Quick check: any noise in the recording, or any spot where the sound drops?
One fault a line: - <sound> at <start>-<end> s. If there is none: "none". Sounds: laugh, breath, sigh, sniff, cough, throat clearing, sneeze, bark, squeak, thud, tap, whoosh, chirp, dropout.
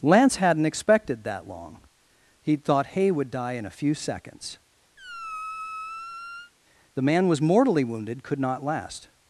- squeak at 5.0-6.5 s